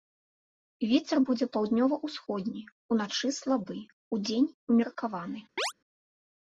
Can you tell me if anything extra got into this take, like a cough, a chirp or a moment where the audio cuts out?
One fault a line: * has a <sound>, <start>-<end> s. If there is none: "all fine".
* has a chirp, 5.6-5.7 s